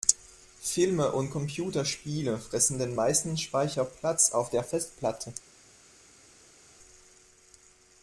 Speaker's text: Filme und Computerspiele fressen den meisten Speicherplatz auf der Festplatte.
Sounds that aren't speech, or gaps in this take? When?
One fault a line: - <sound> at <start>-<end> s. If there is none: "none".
none